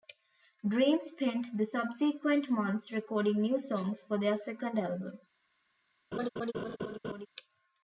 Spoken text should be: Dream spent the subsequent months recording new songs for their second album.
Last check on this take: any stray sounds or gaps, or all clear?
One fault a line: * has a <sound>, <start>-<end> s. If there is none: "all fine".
* has a laugh, 6.1-7.3 s